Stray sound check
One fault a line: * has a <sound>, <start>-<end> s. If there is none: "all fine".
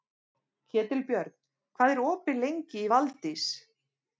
all fine